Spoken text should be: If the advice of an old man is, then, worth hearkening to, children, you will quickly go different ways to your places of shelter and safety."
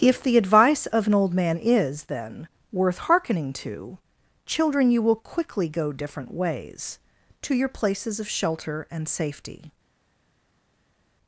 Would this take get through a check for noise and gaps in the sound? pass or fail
pass